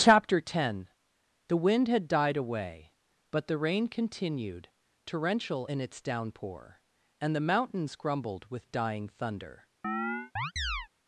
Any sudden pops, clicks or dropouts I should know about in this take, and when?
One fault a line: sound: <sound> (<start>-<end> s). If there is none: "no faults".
sound: chirp (9.8-10.9 s)